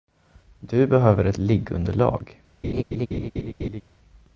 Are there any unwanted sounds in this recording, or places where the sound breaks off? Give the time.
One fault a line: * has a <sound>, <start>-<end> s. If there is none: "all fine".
* has a laugh, 2.6-3.8 s